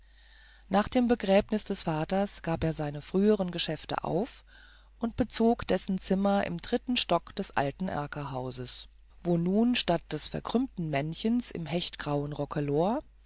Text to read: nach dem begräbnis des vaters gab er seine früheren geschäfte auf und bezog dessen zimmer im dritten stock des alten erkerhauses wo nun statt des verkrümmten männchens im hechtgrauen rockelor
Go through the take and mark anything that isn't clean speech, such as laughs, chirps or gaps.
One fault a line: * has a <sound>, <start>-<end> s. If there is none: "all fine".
all fine